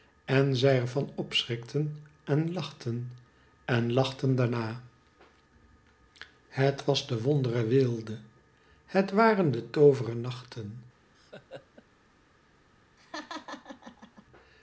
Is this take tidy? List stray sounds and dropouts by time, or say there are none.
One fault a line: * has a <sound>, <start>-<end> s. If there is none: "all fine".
* has a laugh, 11.1-11.8 s
* has a laugh, 13.0-14.3 s